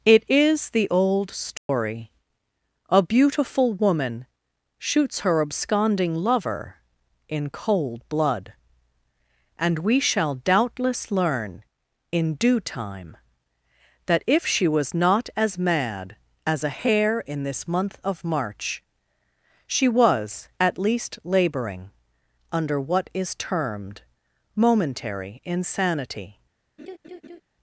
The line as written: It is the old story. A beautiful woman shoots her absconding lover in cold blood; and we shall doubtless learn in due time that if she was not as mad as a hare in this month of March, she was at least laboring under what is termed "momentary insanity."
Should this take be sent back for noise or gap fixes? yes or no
yes